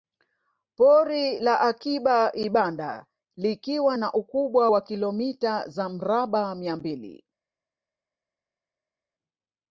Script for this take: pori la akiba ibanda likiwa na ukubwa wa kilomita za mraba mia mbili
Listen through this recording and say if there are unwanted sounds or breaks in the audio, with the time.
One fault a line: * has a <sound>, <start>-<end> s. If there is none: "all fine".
all fine